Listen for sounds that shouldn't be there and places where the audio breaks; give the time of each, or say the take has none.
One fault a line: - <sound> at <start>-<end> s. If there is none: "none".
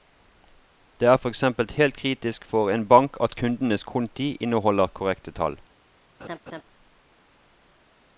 - laugh at 6.2-6.6 s